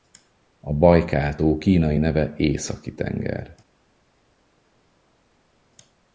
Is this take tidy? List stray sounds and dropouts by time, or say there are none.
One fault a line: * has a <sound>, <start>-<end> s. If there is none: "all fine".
all fine